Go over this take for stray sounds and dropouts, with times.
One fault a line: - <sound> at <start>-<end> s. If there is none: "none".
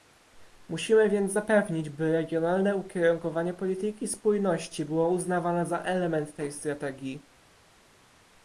none